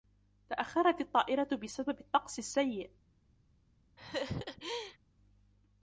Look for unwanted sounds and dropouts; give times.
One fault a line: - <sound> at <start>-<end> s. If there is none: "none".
- laugh at 4.0-5.0 s